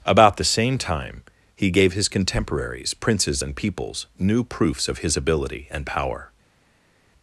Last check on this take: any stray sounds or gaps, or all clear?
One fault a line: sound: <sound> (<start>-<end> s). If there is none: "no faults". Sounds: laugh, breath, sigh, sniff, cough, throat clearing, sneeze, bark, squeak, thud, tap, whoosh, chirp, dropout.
no faults